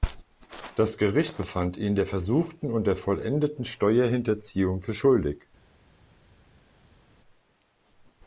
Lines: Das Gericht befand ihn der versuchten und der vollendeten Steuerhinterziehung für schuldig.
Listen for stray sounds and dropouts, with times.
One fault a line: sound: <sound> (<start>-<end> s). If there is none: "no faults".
no faults